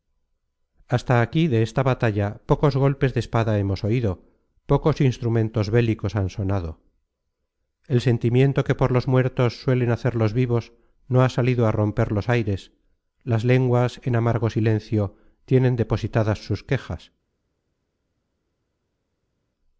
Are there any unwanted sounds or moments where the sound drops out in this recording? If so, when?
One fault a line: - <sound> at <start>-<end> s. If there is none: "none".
none